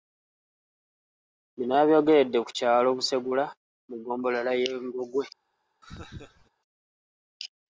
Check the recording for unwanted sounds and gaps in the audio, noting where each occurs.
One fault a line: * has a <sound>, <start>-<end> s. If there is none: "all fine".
* has a laugh, 5.8-6.5 s